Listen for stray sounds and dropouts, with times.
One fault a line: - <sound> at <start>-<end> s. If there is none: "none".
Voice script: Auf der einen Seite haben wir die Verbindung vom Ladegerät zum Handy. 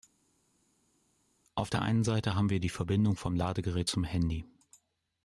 none